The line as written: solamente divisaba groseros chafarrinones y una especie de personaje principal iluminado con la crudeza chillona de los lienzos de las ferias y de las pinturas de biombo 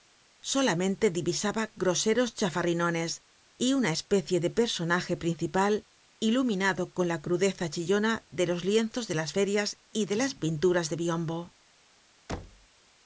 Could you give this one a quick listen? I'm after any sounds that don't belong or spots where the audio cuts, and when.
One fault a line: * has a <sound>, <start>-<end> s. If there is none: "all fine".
* has a thud, 12.3-12.7 s